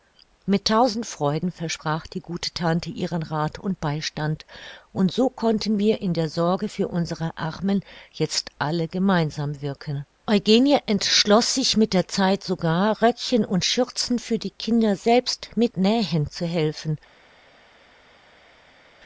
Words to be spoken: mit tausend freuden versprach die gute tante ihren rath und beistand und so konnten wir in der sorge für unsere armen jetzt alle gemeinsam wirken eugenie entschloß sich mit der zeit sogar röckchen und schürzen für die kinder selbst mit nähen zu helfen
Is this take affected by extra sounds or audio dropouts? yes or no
no